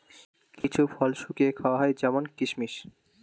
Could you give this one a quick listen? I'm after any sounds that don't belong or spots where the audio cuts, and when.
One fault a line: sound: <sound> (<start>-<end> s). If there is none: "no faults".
sound: dropout (0.6-0.6 s)